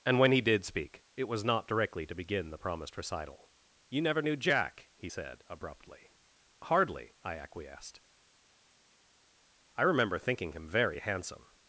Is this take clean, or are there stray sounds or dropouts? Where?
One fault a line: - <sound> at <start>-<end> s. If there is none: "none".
none